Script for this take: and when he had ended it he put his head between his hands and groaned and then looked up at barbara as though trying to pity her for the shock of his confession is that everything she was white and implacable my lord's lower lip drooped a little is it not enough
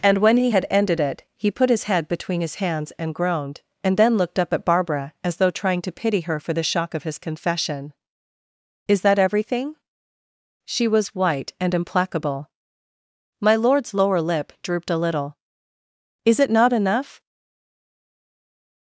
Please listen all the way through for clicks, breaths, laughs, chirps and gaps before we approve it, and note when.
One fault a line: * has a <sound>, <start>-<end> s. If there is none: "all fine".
all fine